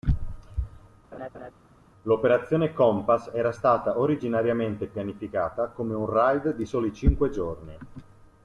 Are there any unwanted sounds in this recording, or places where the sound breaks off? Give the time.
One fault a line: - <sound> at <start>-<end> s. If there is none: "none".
- laugh at 1.1-1.5 s